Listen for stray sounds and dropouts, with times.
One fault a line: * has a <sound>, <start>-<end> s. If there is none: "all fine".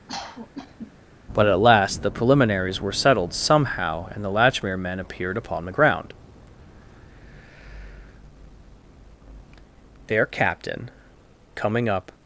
* has a cough, 0.1-0.9 s